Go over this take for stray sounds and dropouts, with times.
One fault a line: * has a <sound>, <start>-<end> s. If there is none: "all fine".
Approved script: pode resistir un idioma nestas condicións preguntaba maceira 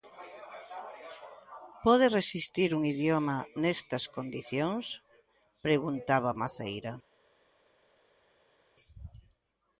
all fine